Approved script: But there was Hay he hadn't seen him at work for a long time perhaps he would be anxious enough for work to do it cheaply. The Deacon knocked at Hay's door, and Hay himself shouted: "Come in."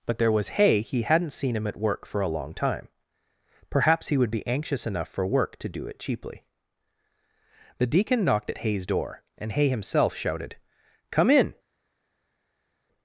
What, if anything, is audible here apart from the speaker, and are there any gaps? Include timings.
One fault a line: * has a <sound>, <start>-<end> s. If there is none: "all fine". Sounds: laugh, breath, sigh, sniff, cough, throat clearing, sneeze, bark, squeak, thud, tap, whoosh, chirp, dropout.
all fine